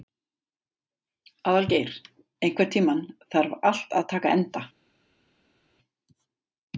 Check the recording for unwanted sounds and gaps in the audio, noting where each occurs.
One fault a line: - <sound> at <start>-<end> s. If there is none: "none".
none